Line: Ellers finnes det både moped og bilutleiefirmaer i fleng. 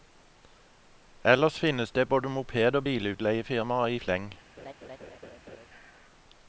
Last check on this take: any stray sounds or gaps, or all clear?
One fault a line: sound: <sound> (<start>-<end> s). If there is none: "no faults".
sound: laugh (4.6-5.7 s)